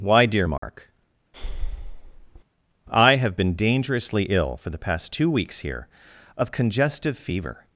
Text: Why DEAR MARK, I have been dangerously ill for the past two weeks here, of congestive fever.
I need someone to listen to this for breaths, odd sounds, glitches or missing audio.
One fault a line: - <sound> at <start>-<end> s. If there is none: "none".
- dropout at 0.6-0.6 s
- breath at 1.3-2.4 s